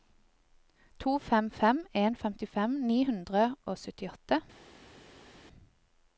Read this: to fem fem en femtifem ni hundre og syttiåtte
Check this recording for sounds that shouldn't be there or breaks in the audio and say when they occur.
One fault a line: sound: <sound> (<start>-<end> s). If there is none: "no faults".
no faults